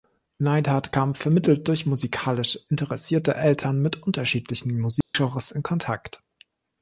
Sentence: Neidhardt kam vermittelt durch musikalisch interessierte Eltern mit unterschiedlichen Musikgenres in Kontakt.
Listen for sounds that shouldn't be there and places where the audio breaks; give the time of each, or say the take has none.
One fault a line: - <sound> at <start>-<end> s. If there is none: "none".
- dropout at 5.0-5.1 s